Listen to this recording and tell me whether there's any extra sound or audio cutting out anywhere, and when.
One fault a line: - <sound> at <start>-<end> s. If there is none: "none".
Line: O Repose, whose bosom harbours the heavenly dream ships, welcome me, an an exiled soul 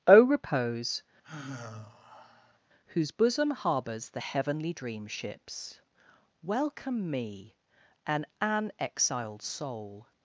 - sigh at 1.2-2.6 s